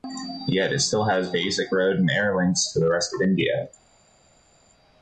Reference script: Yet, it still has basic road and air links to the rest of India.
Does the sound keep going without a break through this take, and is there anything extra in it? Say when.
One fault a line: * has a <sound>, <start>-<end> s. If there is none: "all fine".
all fine